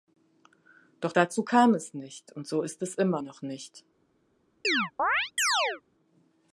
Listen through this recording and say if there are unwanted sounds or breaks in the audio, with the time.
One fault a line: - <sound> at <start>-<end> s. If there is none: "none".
- chirp at 4.6-5.8 s